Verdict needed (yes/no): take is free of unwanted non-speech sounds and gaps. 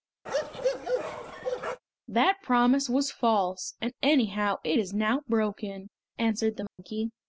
no